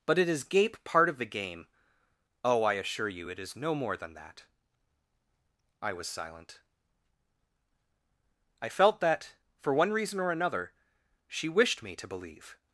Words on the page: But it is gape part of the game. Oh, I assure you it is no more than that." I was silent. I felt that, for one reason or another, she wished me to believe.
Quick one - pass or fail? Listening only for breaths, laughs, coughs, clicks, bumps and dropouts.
pass